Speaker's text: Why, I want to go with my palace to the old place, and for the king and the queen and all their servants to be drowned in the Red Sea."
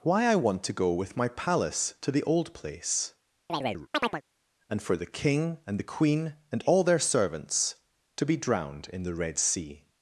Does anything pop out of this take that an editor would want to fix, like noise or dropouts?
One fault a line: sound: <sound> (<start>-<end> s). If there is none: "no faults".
sound: chirp (3.5-4.2 s)